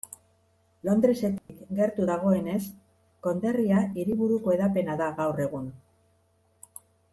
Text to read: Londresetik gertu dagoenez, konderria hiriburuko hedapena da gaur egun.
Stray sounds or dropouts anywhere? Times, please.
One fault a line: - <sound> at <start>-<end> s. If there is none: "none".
- dropout at 1.4-1.5 s